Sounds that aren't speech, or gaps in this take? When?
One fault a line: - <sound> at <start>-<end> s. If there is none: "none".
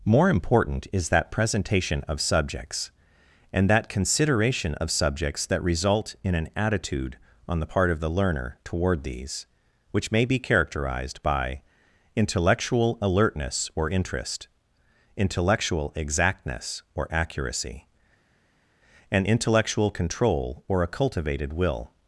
none